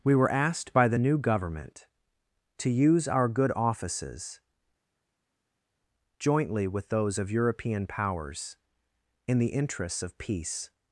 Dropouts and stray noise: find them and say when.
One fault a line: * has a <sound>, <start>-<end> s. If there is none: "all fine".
all fine